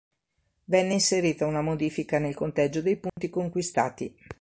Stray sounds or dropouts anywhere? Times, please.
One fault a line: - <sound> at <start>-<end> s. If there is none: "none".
- dropout at 3.1-3.2 s